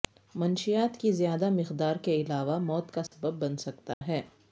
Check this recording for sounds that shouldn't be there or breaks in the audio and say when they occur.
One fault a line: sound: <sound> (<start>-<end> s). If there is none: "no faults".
sound: dropout (3.1-3.1 s)
sound: dropout (3.9-4.0 s)